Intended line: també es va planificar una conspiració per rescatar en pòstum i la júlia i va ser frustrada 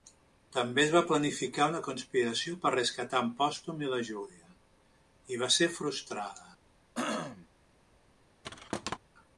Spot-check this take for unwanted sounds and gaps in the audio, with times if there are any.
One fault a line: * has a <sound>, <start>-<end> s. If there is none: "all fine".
* has a throat clearing, 6.9-7.5 s
* has a thud, 8.4-9.0 s